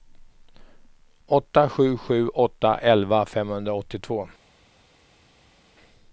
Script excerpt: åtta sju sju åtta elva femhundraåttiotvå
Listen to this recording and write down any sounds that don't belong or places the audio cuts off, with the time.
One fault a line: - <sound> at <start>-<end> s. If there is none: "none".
none